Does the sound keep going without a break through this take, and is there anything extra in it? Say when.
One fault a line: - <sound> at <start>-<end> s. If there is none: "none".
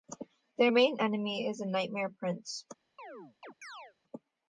- chirp at 3.0-3.9 s